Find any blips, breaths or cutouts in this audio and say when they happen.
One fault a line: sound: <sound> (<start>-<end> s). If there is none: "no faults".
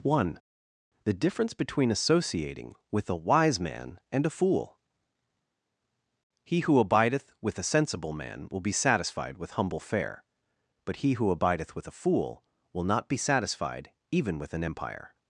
no faults